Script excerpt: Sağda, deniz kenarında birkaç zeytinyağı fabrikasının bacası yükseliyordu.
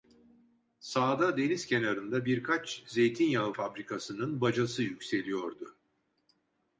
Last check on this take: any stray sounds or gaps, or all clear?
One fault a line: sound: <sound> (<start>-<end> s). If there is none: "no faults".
no faults